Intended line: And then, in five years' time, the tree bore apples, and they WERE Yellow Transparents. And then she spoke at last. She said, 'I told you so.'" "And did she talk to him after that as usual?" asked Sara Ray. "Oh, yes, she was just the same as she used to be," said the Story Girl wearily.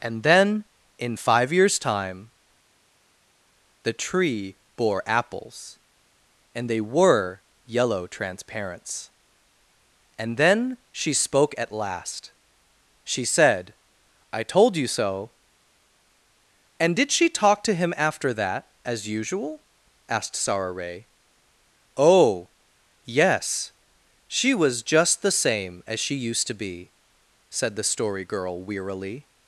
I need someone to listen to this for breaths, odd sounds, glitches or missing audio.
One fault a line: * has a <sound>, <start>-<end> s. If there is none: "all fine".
all fine